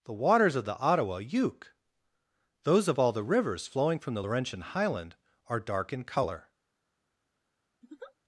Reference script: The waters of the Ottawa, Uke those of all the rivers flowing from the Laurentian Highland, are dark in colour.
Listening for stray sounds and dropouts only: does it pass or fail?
fail